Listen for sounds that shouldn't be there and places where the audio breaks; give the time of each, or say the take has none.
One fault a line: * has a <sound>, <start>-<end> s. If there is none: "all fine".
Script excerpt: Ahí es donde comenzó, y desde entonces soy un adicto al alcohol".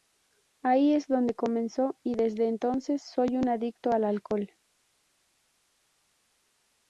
all fine